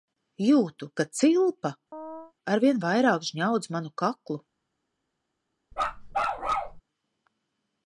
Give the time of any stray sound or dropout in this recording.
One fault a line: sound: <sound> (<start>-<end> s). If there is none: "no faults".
sound: chirp (1.9-2.3 s)
sound: bark (5.7-6.8 s)